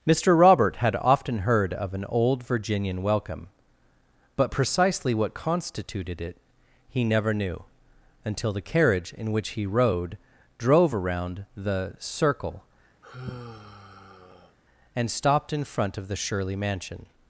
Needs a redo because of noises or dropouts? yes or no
yes